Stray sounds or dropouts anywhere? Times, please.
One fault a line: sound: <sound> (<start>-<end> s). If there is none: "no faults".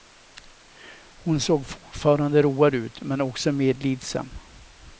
no faults